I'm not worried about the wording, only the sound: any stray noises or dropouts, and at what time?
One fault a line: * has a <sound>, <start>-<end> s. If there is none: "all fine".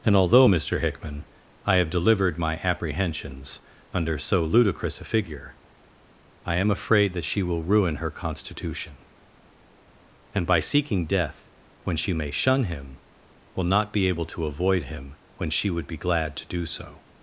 all fine